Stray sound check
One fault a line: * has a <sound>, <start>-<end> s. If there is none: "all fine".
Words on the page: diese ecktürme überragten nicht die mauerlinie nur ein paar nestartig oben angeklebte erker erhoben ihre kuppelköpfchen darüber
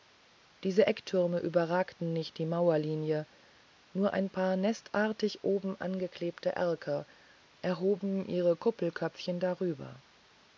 all fine